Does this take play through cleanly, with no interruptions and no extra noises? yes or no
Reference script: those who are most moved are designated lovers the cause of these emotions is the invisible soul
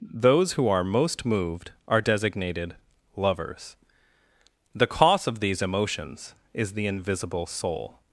yes